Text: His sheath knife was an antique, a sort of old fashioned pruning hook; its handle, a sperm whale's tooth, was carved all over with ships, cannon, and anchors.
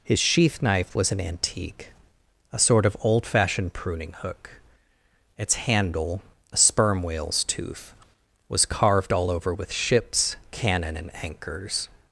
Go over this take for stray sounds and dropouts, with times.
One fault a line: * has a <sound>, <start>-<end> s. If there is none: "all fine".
all fine